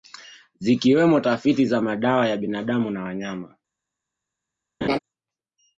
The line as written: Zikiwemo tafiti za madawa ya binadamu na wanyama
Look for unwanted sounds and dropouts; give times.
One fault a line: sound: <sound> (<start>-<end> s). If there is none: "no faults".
sound: laugh (4.8-5.0 s)